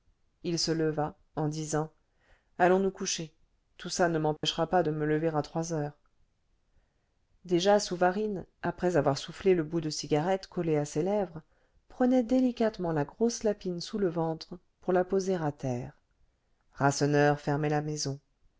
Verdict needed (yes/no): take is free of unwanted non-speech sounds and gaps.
no